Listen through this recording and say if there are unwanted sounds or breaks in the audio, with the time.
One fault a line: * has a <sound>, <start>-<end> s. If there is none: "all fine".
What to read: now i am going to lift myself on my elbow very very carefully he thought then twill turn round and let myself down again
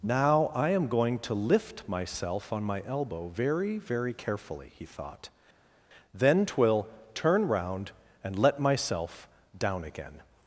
all fine